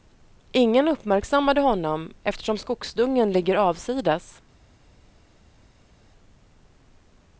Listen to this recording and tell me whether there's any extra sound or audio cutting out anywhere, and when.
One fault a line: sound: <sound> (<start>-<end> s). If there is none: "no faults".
no faults